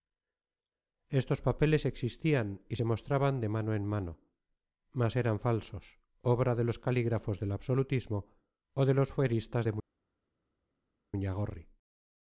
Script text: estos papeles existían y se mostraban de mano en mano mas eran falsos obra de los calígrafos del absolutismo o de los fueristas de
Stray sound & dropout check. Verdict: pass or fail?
pass